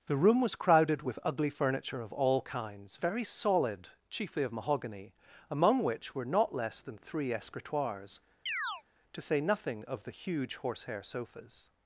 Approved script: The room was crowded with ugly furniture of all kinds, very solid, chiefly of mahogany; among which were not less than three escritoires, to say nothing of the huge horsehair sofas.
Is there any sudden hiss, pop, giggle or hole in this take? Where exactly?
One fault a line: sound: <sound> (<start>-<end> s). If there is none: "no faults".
sound: chirp (8.5-8.8 s)